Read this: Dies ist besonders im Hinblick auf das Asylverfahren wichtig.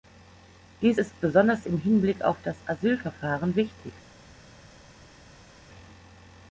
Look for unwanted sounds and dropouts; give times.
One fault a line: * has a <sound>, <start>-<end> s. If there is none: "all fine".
all fine